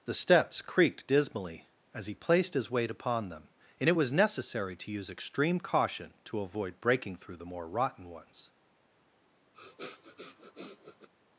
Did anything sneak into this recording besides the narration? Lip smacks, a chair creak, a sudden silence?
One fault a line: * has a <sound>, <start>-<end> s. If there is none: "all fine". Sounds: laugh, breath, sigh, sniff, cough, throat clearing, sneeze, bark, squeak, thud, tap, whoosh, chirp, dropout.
* has a sniff, 9.5-11.1 s